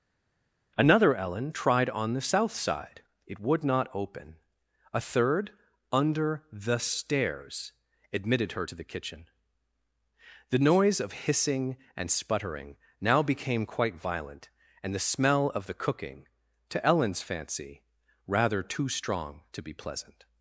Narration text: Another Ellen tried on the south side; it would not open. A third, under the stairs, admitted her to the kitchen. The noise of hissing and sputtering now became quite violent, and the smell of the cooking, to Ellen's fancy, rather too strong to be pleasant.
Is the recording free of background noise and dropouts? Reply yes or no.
yes